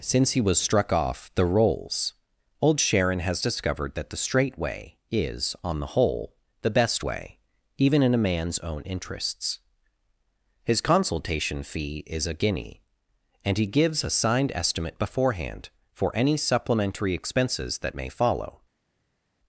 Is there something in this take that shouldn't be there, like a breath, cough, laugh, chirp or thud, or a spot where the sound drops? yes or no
no